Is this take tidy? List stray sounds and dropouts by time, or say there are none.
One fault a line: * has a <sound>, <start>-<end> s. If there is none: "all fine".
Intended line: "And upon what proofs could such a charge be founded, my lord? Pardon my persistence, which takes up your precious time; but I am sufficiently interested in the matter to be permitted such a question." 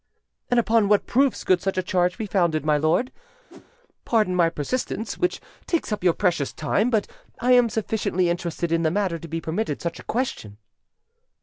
* has a whoosh, 3.5-3.7 s